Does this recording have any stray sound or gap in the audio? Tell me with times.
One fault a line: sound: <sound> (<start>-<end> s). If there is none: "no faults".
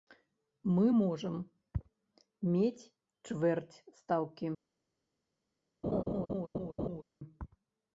sound: laugh (5.8-7.0 s)